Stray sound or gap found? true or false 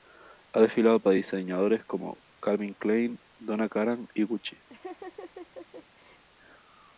true